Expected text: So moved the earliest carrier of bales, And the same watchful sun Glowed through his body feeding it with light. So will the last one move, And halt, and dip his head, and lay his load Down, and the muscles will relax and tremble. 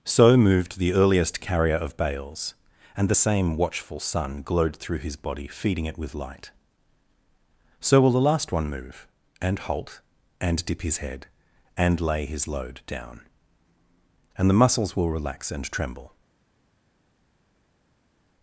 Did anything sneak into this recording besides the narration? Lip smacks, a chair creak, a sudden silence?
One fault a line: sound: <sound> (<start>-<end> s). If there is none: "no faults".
no faults